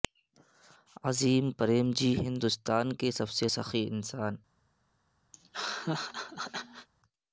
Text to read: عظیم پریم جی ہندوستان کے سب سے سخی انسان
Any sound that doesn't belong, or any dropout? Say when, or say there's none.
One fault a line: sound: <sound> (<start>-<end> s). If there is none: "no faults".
sound: laugh (5.3-6.9 s)